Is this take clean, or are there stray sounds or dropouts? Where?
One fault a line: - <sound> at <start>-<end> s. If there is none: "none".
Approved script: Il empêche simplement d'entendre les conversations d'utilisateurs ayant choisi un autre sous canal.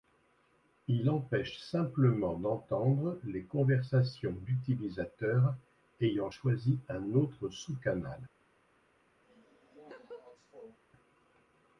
- laugh at 9.2-10.8 s